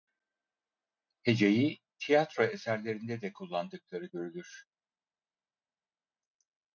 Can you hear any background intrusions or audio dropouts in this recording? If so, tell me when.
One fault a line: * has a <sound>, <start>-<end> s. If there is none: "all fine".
all fine